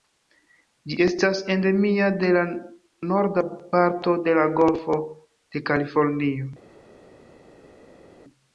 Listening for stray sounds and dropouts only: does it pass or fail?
pass